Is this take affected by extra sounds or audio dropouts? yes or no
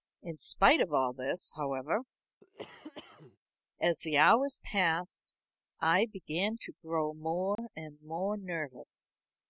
yes